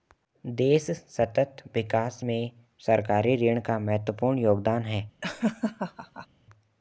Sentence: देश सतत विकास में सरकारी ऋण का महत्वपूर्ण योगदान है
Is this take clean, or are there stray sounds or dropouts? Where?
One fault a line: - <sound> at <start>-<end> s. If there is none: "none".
- laugh at 5.2-6.3 s